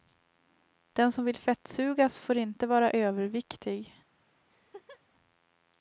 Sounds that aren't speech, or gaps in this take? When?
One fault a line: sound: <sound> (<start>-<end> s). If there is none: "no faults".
sound: laugh (4.5-5.0 s)